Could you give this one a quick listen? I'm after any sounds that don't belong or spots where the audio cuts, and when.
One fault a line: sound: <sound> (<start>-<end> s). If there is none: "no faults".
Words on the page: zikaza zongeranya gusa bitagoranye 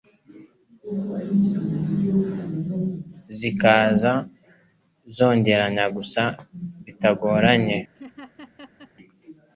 sound: laugh (8.0-8.9 s)